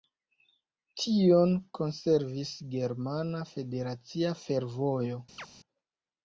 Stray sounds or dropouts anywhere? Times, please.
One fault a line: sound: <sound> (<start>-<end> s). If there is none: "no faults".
sound: chirp (5.4-5.5 s)